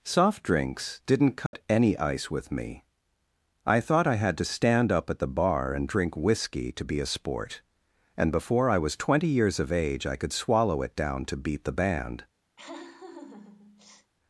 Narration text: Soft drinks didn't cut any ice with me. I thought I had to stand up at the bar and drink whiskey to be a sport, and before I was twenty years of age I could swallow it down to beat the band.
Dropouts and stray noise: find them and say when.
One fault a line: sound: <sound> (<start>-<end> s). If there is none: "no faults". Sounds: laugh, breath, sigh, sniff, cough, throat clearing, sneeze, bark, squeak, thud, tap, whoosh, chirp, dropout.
sound: dropout (1.5-1.5 s)
sound: laugh (12.6-14.1 s)